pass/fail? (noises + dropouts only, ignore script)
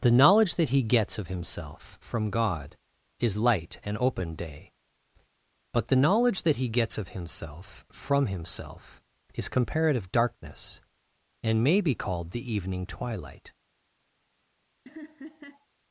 fail